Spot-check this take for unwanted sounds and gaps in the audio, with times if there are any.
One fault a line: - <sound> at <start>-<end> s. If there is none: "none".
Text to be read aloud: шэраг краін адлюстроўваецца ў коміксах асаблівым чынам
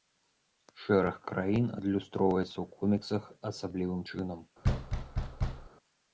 - thud at 4.6-5.7 s